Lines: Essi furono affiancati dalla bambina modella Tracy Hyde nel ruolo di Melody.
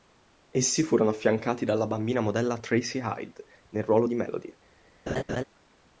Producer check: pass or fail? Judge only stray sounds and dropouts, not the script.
fail